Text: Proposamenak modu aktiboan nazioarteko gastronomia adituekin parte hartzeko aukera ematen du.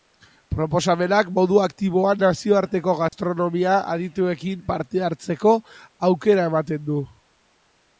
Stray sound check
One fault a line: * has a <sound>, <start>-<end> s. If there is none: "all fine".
* has a dropout, 3.1-3.1 s